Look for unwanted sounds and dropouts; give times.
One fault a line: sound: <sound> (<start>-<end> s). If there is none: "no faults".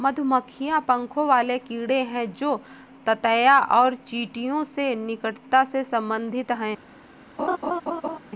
sound: laugh (7.4-8.2 s)